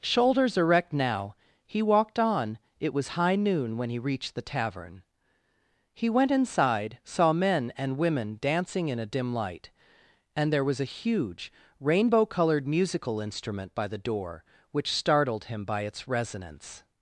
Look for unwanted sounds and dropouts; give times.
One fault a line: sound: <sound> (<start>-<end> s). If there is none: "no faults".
no faults